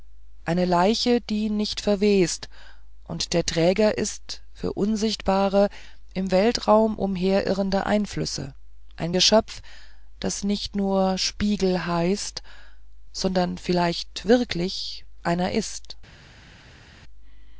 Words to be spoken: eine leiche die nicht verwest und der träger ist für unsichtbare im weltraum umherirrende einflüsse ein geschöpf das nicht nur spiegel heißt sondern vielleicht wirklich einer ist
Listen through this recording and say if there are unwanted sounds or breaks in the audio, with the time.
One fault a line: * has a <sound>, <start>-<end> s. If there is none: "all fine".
all fine